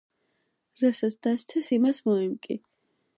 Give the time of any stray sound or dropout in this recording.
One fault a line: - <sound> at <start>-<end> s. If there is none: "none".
none